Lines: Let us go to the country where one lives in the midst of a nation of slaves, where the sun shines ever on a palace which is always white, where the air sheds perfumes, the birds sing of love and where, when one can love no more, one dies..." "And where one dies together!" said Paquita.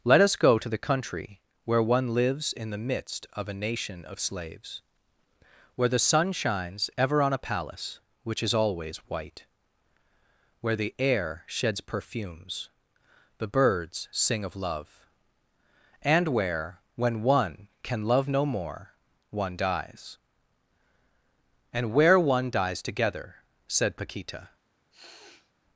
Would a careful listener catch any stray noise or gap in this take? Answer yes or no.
yes